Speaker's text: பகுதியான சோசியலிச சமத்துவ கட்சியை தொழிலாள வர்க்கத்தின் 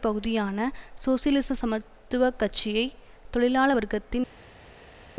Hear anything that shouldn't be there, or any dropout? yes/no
no